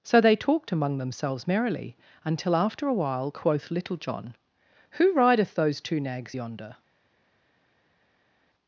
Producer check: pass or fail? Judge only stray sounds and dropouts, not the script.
pass